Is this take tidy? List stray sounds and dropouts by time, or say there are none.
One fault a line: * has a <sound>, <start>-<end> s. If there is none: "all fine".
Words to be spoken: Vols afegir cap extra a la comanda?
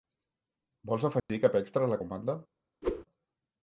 * has a dropout, 1.2-1.3 s
* has a whoosh, 2.8-3.0 s